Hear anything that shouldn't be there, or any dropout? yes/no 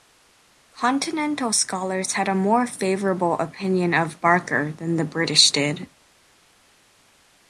no